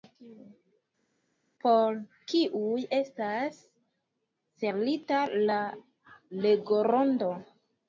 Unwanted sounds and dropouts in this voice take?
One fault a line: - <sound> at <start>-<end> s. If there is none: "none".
none